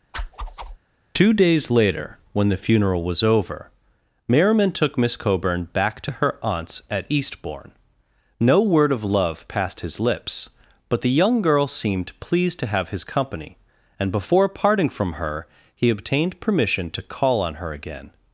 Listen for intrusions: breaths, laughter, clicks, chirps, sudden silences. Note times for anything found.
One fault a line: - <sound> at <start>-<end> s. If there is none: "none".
- whoosh at 0.1-0.8 s